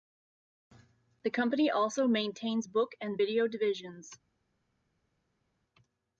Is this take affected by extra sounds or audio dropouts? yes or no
no